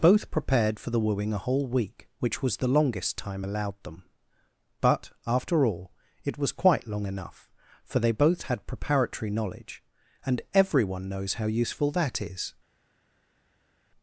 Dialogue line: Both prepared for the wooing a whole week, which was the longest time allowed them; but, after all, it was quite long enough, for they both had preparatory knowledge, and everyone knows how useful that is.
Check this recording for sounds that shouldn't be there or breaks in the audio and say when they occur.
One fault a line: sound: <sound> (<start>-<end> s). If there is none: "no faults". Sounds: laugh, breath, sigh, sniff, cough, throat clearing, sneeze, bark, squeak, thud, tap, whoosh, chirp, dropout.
no faults